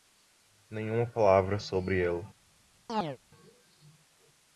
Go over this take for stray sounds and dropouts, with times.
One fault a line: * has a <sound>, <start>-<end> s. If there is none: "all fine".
* has a chirp, 2.9-3.2 s